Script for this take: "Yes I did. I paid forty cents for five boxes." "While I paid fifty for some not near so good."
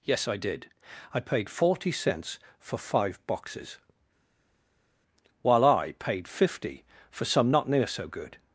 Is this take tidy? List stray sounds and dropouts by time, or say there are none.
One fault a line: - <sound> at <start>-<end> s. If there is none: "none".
none